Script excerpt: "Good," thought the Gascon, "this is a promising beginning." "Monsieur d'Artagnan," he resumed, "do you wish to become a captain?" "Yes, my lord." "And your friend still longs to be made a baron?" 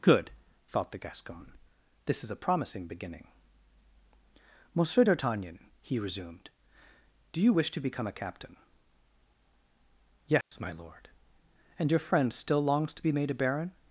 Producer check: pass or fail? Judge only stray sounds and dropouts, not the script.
fail